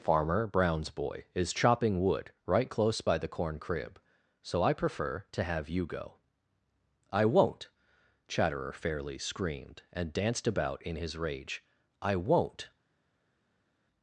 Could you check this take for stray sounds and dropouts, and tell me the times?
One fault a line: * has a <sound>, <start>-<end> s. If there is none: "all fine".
all fine